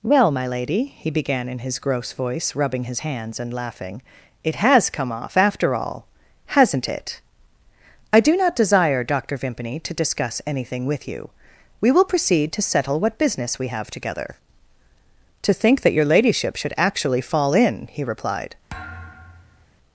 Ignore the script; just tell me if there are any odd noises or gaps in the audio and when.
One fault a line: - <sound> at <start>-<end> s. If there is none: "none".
- thud at 18.7-19.7 s